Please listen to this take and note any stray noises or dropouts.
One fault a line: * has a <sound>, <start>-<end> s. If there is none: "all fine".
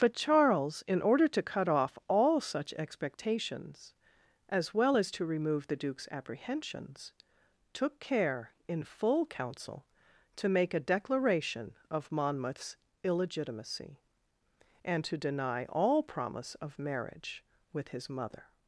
all fine